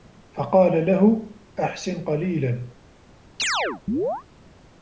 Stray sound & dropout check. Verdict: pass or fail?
fail